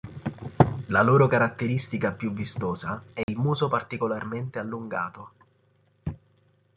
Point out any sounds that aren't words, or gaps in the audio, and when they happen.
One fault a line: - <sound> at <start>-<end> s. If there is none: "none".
- dropout at 3.2-3.3 s